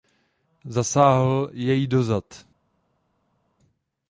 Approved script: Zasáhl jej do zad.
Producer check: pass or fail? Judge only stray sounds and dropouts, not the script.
pass